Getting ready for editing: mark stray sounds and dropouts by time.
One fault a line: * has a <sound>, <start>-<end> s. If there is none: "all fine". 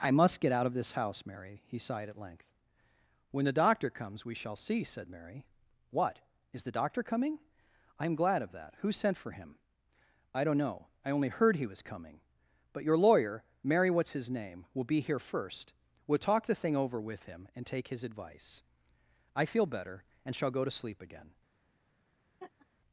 * has a laugh, 22.4-22.7 s